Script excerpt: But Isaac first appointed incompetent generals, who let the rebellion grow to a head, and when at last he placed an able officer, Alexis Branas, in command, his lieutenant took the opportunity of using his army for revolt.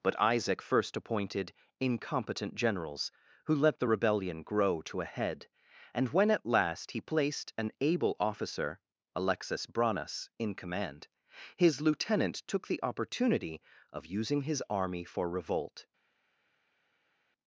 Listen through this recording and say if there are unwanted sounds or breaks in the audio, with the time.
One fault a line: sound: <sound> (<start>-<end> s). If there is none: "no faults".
no faults